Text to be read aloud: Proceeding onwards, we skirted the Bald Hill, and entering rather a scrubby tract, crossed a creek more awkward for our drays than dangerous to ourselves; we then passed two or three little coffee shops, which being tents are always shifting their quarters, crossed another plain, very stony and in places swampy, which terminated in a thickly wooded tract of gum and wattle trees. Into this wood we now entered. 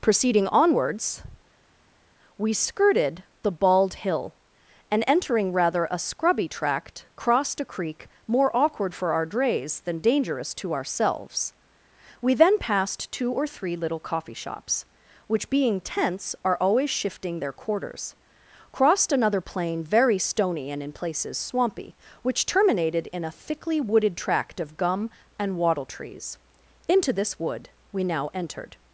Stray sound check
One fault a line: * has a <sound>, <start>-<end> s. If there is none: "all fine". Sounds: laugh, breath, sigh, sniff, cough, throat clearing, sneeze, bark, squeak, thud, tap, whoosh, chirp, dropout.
all fine